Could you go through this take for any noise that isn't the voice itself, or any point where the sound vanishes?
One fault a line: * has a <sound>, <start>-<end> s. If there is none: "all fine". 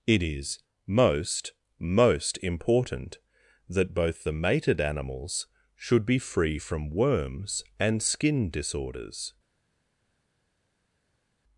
all fine